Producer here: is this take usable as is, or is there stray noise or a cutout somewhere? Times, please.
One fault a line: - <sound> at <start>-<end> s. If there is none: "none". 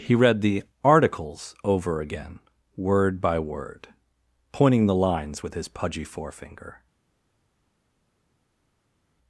none